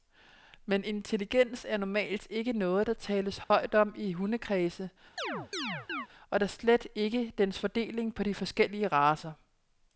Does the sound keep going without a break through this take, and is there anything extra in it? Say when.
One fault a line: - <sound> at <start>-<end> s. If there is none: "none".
- dropout at 3.4-3.5 s
- chirp at 5.2-6.1 s